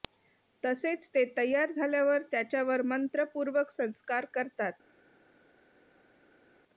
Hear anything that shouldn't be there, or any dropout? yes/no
no